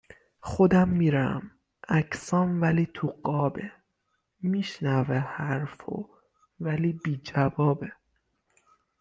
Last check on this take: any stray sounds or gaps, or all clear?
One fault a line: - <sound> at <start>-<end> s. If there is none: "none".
none